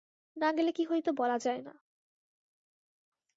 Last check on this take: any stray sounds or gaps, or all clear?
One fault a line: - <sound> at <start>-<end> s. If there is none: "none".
none